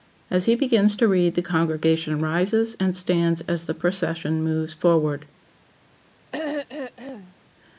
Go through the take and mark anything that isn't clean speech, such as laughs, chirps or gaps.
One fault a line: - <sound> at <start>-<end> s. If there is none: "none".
- throat clearing at 6.3-7.4 s